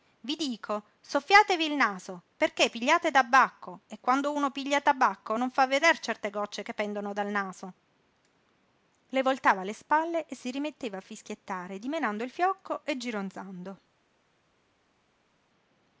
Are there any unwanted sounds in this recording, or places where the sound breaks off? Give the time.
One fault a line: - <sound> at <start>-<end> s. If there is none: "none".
none